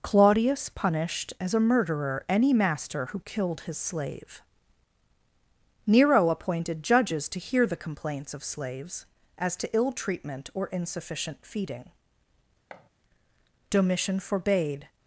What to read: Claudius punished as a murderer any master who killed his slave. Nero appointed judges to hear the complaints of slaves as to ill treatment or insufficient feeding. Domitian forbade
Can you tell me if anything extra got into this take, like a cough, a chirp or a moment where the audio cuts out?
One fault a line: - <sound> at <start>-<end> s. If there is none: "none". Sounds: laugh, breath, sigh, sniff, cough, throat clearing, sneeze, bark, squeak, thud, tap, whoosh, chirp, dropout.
- thud at 12.7-12.9 s